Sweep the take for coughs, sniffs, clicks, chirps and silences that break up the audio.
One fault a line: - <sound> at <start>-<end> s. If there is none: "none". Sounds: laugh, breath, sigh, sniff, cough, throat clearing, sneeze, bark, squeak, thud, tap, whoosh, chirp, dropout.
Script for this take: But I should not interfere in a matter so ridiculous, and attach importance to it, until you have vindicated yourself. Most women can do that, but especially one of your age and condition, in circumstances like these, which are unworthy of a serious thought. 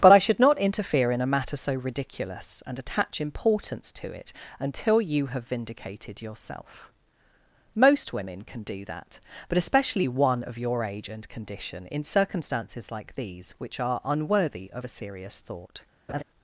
- laugh at 16.1-16.2 s